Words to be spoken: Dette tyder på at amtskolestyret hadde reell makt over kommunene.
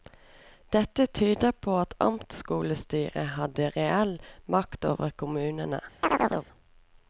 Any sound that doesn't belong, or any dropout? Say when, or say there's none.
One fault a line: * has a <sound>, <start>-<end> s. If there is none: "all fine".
* has a chirp, 6.0-6.5 s